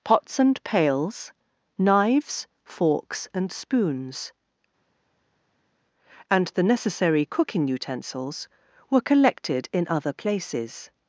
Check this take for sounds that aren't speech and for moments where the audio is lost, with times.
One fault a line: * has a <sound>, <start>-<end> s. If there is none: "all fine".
all fine